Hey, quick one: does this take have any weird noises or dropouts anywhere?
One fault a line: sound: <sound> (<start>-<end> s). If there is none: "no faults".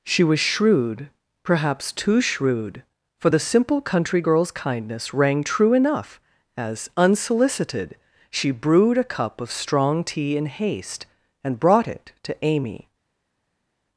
no faults